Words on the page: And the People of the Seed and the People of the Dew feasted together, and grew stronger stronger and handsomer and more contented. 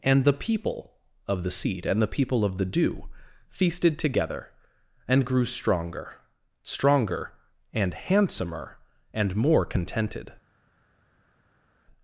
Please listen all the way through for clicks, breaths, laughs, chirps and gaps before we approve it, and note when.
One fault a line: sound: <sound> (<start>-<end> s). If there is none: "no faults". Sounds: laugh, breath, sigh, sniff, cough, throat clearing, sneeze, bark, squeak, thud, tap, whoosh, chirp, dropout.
no faults